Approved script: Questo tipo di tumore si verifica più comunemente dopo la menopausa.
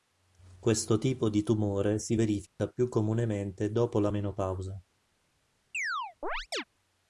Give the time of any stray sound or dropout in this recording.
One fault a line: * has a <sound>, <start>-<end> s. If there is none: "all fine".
* has a dropout, 2.5-2.6 s
* has a chirp, 5.7-6.6 s